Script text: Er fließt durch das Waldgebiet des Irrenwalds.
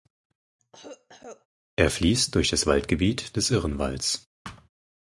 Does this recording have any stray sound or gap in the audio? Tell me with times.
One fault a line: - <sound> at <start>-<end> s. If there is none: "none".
- cough at 0.6-1.5 s
- thud at 4.4-4.7 s